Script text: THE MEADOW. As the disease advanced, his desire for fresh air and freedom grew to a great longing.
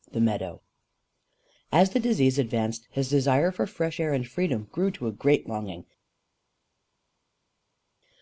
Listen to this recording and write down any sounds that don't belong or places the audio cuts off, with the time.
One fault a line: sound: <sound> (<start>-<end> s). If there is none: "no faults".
no faults